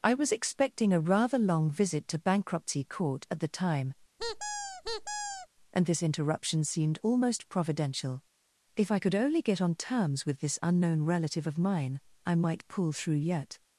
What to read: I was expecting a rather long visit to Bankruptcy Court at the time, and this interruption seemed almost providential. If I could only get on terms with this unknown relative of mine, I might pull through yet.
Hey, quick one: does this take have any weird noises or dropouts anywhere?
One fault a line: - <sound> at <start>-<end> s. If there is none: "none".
- squeak at 4.2-5.5 s